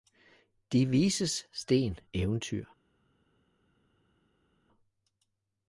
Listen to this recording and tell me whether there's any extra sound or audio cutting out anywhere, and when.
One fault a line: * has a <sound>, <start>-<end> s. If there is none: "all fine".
all fine